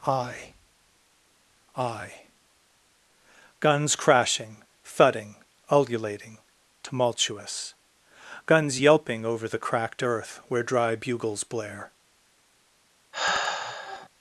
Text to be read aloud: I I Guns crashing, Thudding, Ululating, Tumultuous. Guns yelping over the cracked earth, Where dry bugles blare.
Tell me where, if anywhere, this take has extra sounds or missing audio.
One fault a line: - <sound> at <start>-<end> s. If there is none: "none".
- sigh at 13.1-14.1 s